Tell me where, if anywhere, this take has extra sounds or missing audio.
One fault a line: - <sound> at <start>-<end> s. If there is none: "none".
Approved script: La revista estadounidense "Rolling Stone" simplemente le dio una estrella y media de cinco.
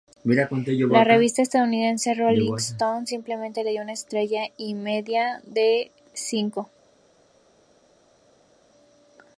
none